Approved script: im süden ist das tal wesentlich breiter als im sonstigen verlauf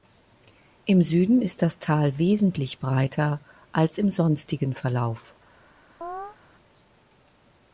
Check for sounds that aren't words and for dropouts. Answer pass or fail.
fail